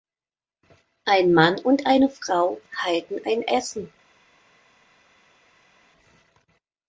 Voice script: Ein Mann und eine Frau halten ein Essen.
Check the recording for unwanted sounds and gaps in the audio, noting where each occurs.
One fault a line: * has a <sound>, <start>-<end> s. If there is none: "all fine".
all fine